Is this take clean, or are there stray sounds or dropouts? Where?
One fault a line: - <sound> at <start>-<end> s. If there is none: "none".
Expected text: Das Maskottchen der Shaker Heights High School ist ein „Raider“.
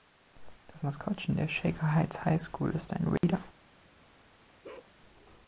- dropout at 3.2-3.2 s
- bark at 4.6-4.9 s